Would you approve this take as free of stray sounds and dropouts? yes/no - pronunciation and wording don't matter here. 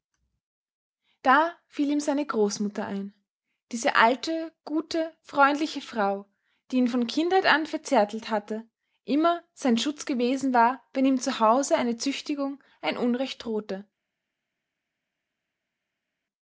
yes